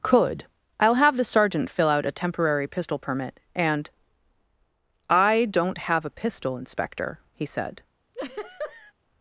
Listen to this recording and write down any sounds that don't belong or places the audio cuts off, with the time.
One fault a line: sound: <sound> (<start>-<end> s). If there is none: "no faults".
sound: laugh (8.1-8.9 s)